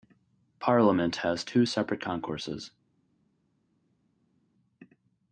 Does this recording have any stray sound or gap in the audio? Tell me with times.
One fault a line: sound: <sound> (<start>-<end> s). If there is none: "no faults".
no faults